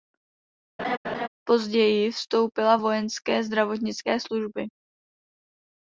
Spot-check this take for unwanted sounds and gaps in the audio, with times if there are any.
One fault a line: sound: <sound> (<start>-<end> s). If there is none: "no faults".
sound: laugh (0.8-1.3 s)